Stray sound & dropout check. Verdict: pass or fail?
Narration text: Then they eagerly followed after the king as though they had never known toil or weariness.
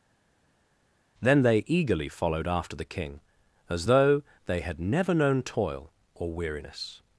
pass